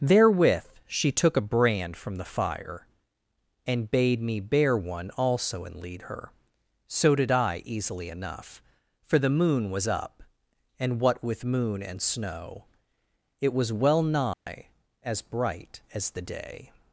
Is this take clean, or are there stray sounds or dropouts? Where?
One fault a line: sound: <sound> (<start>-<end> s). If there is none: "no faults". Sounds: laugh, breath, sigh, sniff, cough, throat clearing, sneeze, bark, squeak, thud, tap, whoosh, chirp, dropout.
sound: dropout (14.3-14.5 s)